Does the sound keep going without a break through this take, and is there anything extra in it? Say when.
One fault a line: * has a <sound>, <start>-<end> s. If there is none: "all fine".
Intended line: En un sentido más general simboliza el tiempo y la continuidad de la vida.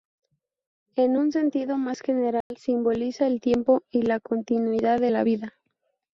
* has a dropout, 2.4-2.5 s